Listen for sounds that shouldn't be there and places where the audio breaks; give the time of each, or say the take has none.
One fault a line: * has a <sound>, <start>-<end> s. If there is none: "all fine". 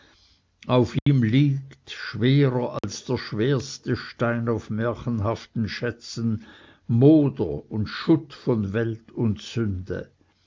* has a dropout, 1.0-1.1 s
* has a dropout, 2.8-2.8 s